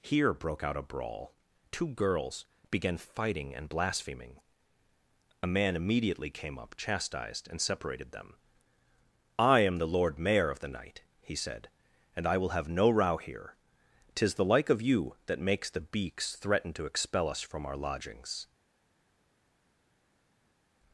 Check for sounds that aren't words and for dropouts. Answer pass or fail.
pass